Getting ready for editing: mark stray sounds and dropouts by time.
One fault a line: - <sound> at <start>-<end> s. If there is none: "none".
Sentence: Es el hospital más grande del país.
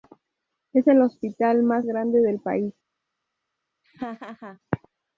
- laugh at 3.8-4.6 s